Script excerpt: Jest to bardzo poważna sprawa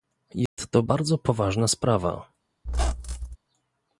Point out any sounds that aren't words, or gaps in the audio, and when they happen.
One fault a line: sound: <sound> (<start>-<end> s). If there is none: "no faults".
sound: dropout (0.5-0.6 s)
sound: squeak (2.7-3.4 s)